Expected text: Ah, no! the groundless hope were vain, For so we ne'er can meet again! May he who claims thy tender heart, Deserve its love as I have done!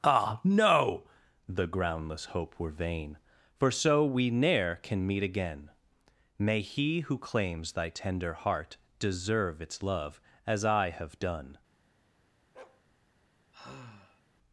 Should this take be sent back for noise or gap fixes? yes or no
yes